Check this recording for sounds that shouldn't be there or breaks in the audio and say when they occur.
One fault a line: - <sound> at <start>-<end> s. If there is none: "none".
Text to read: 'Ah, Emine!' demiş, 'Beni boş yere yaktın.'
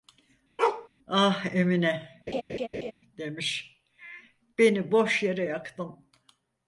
- bark at 0.6-0.9 s
- laugh at 2.3-2.9 s